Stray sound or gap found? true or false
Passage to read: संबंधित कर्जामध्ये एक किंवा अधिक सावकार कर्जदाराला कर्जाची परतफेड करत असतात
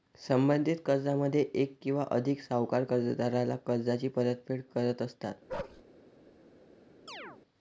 true